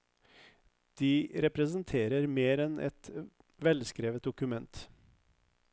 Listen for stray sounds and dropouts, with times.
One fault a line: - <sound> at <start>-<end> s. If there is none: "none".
none